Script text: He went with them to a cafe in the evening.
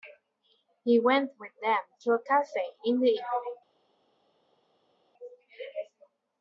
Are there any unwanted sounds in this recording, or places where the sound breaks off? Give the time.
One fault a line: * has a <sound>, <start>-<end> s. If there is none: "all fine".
all fine